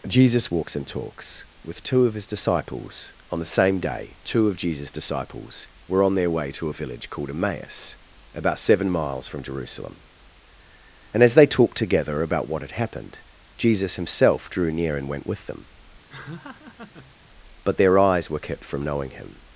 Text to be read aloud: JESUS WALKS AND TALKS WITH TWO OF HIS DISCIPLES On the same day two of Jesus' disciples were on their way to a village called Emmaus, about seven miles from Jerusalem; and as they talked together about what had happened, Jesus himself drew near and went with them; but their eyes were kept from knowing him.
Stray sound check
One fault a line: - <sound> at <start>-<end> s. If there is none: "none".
- laugh at 16.1-17.2 s